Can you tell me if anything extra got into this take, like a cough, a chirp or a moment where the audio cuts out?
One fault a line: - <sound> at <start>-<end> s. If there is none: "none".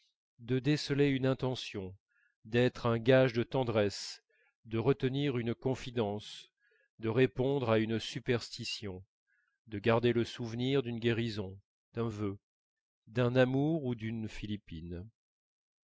none